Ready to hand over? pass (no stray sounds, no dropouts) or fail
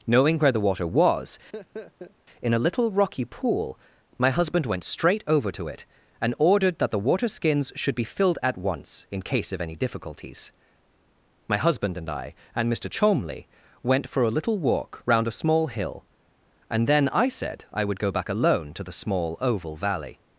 fail